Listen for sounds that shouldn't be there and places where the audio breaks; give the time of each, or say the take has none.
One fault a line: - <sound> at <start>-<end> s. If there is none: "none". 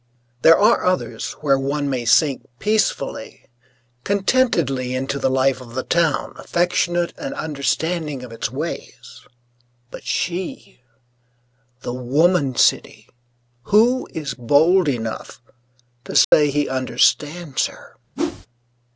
- dropout at 16.2-16.3 s
- whoosh at 18.2-18.5 s